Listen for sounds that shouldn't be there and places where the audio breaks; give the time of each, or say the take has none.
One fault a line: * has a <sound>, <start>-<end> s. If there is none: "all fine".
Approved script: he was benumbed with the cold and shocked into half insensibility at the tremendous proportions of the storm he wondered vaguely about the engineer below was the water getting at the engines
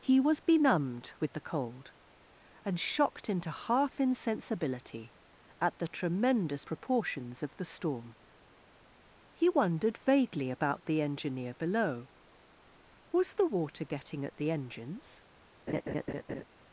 * has a laugh, 15.7-16.4 s